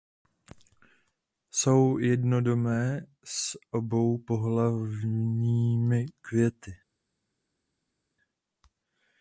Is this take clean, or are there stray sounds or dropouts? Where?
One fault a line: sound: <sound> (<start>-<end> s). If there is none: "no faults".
no faults